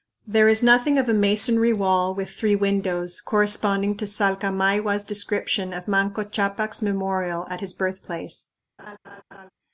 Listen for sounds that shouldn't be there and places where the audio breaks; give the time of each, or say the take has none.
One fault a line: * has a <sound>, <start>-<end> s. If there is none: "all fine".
* has a laugh, 8.8-9.5 s